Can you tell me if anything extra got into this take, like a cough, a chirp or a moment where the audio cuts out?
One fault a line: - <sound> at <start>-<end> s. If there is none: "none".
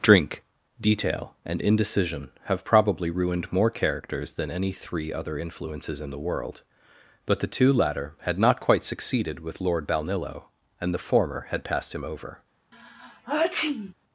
- sneeze at 12.7-13.9 s